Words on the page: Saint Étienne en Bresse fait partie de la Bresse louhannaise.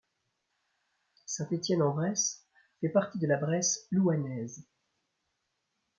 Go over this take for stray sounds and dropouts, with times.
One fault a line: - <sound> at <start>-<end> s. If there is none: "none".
none